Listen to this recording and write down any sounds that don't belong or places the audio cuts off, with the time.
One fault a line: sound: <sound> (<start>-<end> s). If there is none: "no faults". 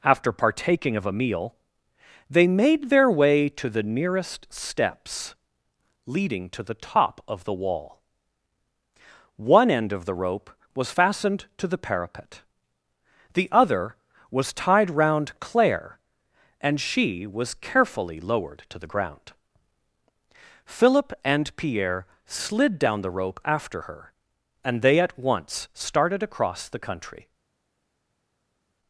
no faults